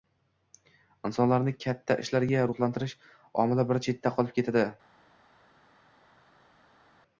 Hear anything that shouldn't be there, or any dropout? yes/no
no